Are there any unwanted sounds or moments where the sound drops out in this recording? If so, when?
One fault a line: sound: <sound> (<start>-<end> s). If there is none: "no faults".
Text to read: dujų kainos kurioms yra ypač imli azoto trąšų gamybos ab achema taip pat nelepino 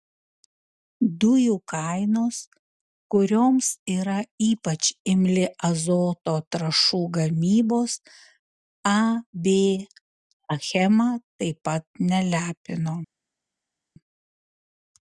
no faults